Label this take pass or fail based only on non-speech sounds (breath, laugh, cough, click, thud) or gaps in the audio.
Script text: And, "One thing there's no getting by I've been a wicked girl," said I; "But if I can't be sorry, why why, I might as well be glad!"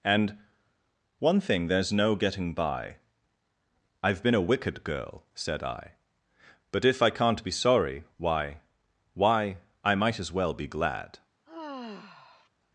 fail